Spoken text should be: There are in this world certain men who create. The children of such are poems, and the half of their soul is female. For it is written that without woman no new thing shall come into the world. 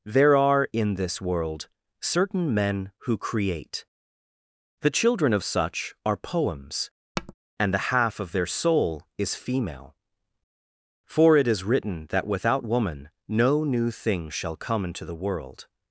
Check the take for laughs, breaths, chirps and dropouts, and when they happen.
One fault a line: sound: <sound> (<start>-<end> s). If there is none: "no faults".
sound: tap (7.2-7.3 s)